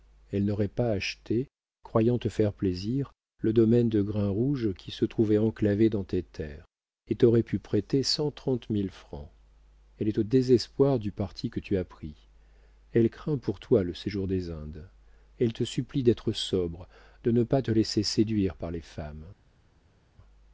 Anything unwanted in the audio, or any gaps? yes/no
no